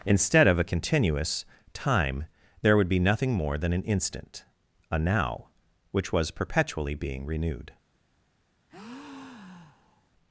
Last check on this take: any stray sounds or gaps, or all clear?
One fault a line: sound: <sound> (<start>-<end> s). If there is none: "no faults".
sound: breath (8.7-10.1 s)